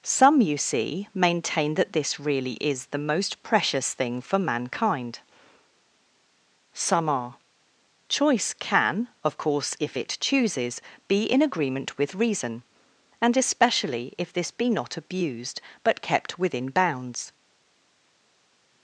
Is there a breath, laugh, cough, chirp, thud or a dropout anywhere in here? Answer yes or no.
no